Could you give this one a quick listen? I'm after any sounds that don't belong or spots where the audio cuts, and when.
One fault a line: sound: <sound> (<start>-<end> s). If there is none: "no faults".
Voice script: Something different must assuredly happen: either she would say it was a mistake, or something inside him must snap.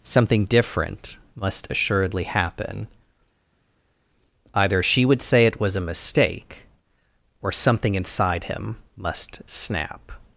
no faults